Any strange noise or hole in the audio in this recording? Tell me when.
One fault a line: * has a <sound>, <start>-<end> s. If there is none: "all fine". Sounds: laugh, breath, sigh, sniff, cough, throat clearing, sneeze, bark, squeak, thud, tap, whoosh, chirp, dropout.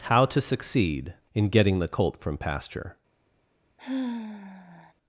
* has a sigh, 3.8-4.9 s